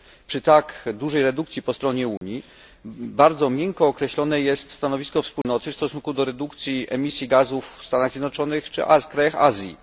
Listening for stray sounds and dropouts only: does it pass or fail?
fail